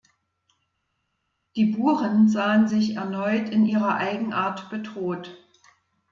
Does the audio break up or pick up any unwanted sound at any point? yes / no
no